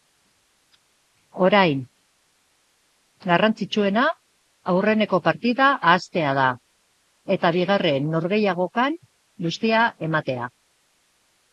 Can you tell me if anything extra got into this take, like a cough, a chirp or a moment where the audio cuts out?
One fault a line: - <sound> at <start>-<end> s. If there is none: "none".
none